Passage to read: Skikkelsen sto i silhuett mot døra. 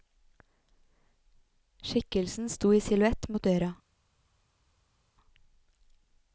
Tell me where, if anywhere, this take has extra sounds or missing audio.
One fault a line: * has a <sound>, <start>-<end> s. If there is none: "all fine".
all fine